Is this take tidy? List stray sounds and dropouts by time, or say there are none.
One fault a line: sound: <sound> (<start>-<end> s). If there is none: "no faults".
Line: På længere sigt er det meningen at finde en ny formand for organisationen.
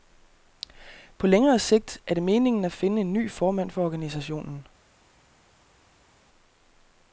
no faults